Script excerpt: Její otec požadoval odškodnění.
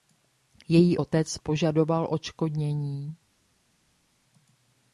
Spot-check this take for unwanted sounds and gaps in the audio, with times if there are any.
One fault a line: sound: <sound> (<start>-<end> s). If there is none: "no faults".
no faults